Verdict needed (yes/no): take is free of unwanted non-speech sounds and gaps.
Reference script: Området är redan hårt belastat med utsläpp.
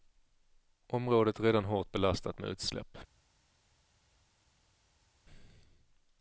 yes